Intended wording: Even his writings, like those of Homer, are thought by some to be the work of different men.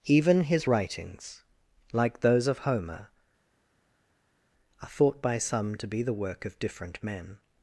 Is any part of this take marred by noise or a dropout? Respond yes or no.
no